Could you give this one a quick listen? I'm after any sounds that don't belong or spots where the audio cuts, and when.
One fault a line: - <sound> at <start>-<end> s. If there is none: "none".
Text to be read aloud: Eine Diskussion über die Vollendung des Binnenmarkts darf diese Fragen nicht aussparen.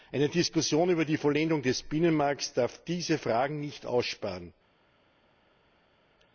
none